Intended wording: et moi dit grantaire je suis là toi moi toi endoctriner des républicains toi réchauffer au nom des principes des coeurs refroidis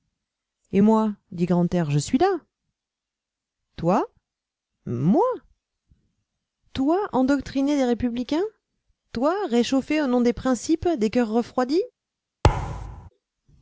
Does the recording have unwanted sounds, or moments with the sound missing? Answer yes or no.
yes